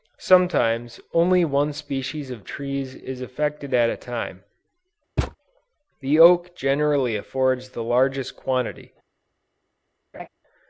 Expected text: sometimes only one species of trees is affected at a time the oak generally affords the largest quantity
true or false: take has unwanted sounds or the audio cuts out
true